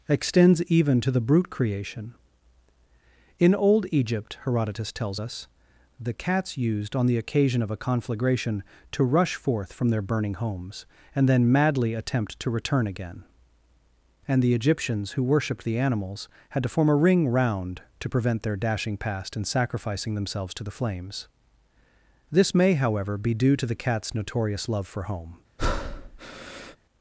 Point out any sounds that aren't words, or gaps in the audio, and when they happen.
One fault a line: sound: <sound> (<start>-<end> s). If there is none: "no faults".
sound: breath (25.6-26.8 s)